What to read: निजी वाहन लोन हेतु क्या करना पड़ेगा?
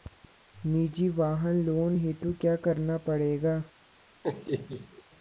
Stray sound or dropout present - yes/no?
yes